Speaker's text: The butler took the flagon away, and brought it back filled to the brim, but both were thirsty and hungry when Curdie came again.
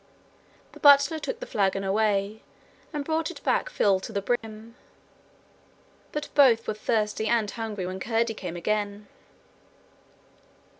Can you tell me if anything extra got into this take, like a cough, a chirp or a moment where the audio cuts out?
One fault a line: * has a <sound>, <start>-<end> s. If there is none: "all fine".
* has a dropout, 4.4-4.4 s